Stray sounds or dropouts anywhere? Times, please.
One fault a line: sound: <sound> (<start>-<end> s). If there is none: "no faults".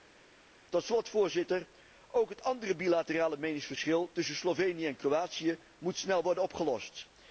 no faults